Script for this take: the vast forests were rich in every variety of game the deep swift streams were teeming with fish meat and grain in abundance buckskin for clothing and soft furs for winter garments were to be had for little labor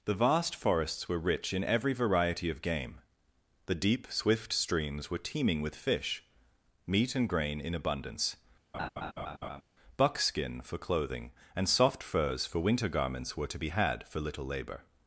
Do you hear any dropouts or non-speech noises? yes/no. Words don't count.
yes